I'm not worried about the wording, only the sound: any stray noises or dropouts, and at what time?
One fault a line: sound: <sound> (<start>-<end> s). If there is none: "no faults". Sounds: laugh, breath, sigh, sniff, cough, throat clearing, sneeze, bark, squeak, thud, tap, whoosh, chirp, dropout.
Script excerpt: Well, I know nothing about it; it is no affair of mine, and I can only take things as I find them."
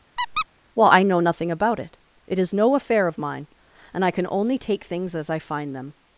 sound: squeak (0.2-0.5 s)